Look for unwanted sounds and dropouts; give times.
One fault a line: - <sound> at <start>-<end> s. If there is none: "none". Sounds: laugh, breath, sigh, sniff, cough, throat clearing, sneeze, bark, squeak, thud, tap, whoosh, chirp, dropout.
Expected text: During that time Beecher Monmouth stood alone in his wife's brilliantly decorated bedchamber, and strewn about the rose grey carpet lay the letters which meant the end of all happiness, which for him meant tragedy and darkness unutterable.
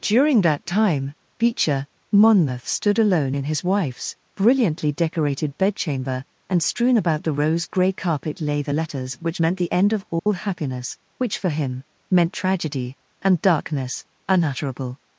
- dropout at 10.2-10.3 s